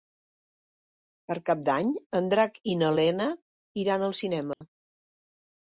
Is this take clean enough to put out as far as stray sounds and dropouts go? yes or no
no